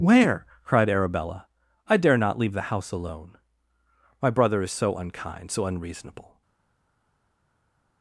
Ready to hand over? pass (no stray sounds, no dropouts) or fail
pass